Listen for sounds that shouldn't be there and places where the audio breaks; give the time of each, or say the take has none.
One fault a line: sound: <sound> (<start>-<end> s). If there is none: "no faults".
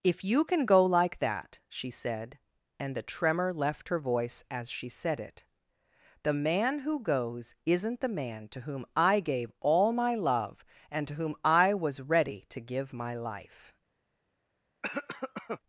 sound: cough (14.8-15.6 s)